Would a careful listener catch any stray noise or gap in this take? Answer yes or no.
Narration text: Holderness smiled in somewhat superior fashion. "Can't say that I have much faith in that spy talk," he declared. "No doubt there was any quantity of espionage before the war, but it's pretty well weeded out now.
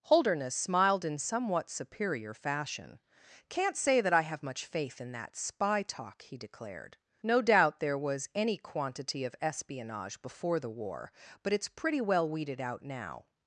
no